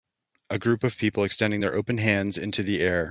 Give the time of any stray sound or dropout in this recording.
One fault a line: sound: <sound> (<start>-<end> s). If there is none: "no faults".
no faults